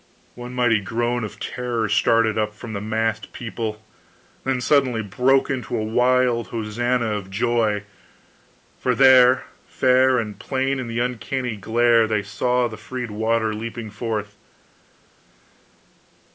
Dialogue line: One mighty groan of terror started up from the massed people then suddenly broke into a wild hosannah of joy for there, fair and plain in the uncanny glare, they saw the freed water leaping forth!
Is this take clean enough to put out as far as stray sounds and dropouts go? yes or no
yes